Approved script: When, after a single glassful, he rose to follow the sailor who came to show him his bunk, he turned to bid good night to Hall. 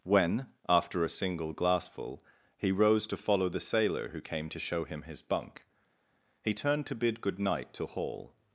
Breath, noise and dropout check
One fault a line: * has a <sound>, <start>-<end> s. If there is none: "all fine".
all fine